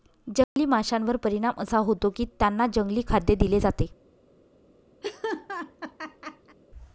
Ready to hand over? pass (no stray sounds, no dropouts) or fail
fail